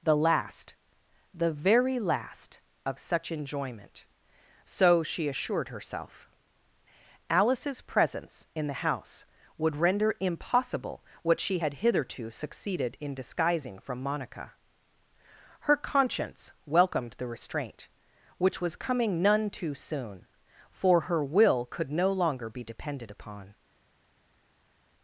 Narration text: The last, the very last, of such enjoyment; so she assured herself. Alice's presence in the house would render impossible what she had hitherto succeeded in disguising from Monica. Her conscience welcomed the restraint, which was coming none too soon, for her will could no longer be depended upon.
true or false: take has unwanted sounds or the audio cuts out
false